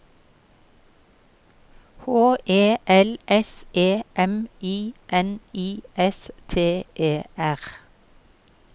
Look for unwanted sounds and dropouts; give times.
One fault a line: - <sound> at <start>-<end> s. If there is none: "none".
none